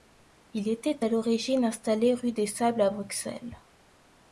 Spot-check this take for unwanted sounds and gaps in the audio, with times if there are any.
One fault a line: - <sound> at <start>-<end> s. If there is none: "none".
none